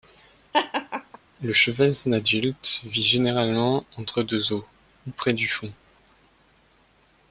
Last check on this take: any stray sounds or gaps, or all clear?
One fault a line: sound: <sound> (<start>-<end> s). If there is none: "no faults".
sound: laugh (0.5-1.2 s)